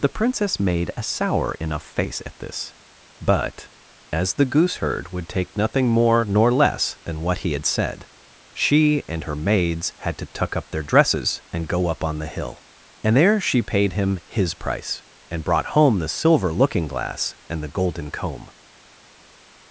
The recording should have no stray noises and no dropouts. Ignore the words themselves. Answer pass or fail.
pass